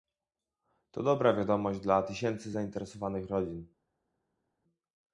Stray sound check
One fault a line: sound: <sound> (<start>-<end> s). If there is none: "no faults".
no faults